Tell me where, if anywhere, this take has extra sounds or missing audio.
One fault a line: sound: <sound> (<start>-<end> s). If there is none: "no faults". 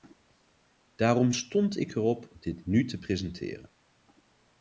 no faults